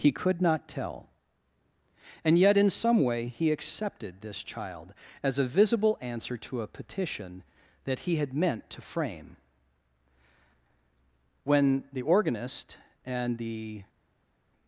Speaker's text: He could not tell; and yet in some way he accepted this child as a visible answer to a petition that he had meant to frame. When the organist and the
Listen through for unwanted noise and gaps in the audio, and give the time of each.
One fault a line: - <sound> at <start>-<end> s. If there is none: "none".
none